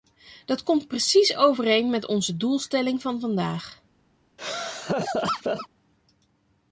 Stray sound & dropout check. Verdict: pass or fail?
fail